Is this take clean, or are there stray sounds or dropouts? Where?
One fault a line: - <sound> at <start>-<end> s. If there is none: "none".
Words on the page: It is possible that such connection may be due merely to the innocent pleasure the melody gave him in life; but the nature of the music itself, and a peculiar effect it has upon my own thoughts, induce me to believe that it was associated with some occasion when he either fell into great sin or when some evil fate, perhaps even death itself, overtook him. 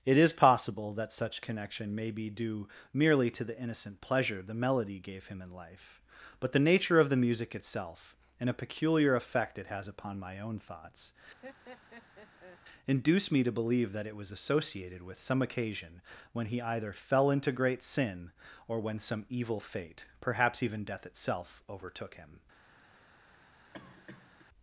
- laugh at 11.4-12.6 s
- cough at 23.7-24.5 s